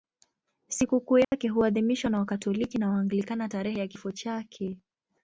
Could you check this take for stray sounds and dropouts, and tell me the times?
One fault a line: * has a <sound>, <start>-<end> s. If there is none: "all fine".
* has a dropout, 1.2-1.3 s